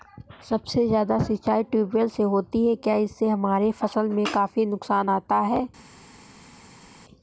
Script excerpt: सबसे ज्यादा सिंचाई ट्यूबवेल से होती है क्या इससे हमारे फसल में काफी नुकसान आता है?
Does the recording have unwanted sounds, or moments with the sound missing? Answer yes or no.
no